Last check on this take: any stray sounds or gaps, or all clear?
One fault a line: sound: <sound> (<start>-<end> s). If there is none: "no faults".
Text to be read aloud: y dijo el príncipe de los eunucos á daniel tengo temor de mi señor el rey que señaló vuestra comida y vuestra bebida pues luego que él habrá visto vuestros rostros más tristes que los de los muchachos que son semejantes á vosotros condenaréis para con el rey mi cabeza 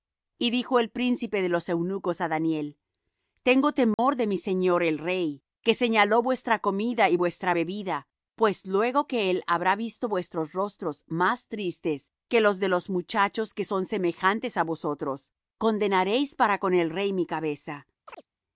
sound: dropout (3.9-4.0 s)
sound: chirp (18.1-18.3 s)